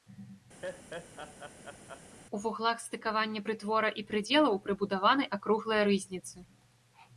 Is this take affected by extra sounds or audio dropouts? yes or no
yes